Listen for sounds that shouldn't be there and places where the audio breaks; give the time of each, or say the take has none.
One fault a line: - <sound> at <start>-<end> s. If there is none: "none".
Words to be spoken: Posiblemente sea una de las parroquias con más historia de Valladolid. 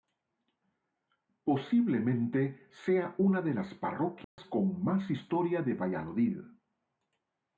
- dropout at 4.2-4.4 s